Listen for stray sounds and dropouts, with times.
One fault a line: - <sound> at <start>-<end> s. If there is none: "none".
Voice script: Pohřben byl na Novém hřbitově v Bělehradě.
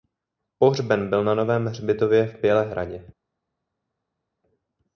none